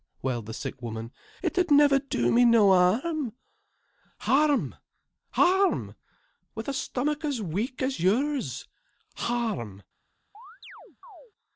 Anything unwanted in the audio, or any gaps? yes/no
yes